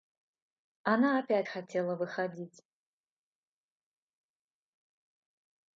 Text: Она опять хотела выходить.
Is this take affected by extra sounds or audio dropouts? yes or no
no